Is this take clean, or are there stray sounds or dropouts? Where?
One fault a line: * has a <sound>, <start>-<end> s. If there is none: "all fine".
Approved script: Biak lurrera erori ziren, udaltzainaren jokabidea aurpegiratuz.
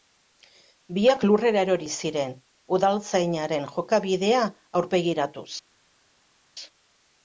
all fine